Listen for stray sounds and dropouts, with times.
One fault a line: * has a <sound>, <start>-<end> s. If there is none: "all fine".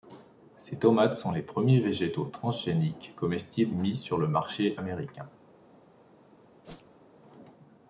* has a whoosh, 6.6-7.0 s